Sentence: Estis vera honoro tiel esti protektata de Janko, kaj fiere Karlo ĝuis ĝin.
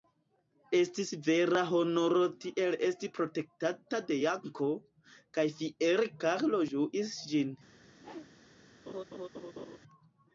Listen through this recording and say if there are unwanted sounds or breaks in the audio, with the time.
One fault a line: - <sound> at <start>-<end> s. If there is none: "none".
- whoosh at 7.9-8.3 s
- laugh at 8.9-9.8 s